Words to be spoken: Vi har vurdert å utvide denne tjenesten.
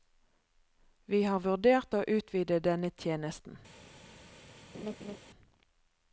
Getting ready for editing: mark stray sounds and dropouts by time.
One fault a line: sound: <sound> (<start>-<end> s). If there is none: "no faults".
sound: laugh (4.7-5.2 s)